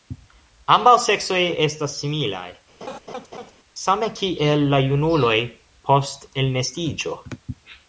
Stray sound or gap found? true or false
true